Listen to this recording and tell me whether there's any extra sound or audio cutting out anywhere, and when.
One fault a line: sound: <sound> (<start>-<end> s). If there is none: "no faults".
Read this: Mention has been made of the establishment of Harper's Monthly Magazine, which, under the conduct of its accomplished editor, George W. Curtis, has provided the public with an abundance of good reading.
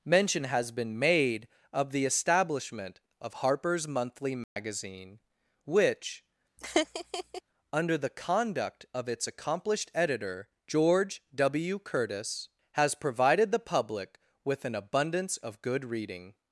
sound: dropout (4.4-4.6 s)
sound: laugh (6.6-7.4 s)